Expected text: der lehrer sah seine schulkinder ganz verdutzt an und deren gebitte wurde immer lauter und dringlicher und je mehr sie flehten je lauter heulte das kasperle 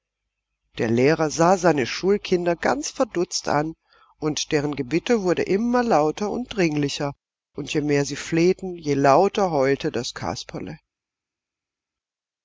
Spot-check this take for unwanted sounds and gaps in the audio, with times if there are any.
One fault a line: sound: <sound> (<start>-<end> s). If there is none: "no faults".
no faults